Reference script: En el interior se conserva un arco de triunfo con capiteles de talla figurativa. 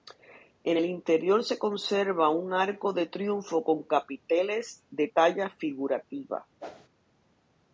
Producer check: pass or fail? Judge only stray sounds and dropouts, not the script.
fail